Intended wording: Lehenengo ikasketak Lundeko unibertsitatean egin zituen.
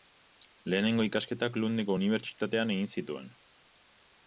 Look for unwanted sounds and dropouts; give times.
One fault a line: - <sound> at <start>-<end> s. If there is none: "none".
none